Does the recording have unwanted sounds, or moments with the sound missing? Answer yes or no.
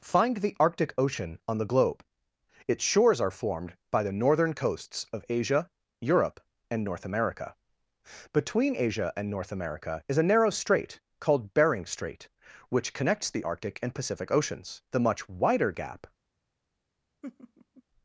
yes